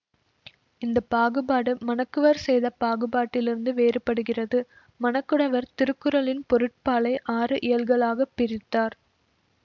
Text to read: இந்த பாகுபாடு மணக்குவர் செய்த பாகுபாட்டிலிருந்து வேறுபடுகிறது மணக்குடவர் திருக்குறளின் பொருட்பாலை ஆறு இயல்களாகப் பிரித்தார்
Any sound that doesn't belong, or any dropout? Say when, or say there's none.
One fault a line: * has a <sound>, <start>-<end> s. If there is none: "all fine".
all fine